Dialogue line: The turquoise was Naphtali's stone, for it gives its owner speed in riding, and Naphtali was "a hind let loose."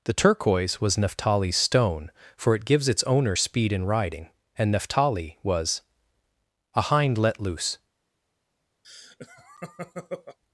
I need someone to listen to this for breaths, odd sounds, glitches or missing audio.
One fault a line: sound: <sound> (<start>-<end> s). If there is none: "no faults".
sound: laugh (8.8-10.4 s)